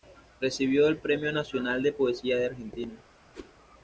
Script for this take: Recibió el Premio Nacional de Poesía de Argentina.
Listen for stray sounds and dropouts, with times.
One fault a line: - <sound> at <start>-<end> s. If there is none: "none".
- whoosh at 3.3-3.5 s